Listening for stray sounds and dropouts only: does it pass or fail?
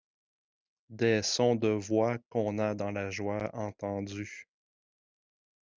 pass